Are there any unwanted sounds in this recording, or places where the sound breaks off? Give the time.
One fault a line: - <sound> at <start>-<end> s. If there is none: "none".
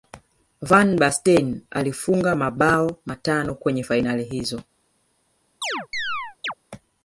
- chirp at 5.6-6.5 s